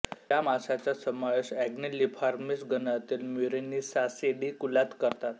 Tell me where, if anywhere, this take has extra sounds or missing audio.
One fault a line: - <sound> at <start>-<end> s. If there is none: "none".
none